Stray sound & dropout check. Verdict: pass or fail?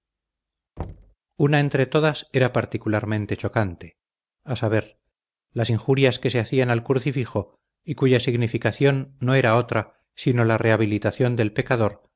fail